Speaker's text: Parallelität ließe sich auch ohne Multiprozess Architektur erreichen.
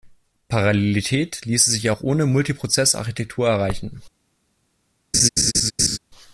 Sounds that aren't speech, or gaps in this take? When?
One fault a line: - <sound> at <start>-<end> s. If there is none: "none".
- laugh at 5.1-6.0 s